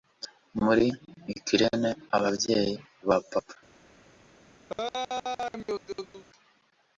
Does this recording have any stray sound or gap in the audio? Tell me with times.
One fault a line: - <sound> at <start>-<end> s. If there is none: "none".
- laugh at 4.7-6.2 s